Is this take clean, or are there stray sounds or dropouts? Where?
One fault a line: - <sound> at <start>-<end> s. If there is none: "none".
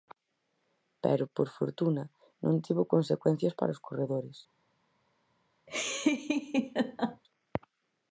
- laugh at 5.7-7.2 s